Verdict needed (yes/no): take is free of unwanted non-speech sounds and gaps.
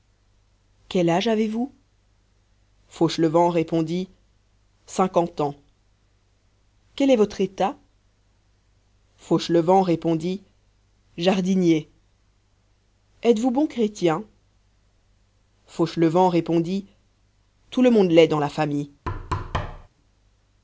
no